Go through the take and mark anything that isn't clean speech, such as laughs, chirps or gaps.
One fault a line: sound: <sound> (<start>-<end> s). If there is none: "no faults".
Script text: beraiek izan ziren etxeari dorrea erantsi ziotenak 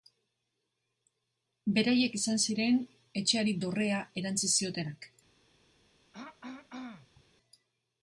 sound: throat clearing (6.1-7.2 s)